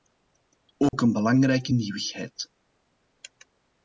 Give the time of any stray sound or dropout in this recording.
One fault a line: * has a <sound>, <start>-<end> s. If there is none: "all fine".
* has a dropout, 0.9-0.9 s